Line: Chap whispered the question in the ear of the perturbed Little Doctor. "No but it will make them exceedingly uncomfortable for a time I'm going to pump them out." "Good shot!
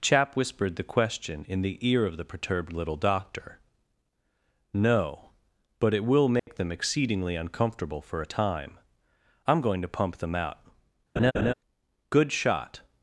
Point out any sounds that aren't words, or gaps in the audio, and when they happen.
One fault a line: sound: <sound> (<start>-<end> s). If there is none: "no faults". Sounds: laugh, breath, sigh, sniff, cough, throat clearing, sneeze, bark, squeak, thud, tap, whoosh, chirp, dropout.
sound: dropout (6.4-6.5 s)
sound: laugh (11.2-11.5 s)